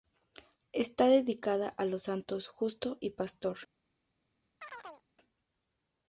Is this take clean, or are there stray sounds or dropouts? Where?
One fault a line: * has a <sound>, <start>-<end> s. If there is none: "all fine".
* has a chirp, 4.6-5.0 s